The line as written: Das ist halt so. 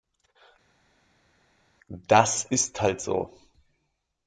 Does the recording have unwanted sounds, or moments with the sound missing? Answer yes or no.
no